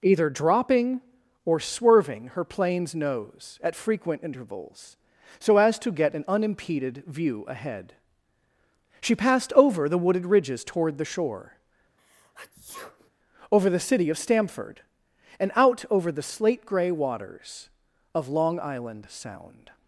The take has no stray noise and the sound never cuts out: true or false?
false